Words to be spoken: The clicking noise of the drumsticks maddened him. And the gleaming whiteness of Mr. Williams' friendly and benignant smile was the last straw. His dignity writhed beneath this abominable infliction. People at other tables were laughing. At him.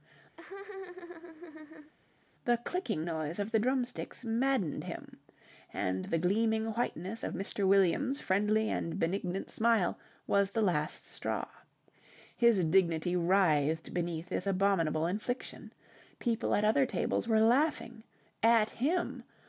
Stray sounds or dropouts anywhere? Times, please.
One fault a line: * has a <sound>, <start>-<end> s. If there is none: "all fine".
* has a laugh, 0.4-1.9 s